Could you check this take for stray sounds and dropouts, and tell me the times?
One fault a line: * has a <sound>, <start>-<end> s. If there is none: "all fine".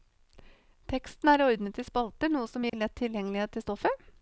* has a dropout, 2.7-2.7 s